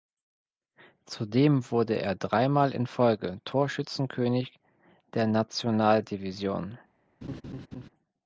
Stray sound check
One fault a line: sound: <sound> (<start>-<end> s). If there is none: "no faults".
sound: laugh (7.2-7.9 s)